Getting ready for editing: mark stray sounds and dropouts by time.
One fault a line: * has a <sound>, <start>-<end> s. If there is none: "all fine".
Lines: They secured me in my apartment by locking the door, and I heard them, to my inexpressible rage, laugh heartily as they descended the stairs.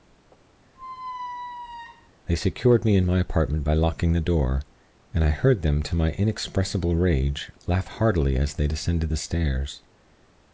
* has a squeak, 0.7-2.1 s